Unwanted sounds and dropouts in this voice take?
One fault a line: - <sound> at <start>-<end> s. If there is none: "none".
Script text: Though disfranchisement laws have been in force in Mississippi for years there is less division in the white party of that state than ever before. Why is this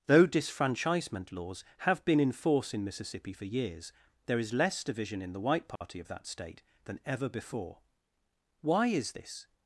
- dropout at 5.8-5.8 s